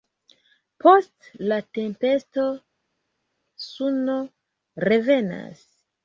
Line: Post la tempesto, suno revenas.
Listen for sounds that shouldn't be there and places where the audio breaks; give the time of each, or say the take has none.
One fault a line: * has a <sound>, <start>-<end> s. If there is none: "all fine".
all fine